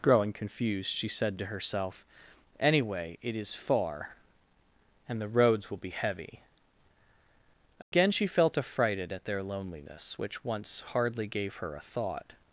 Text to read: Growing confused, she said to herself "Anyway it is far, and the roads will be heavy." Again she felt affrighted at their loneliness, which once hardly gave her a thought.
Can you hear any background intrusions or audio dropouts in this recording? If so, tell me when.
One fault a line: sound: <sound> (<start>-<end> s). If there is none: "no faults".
sound: dropout (7.8-7.9 s)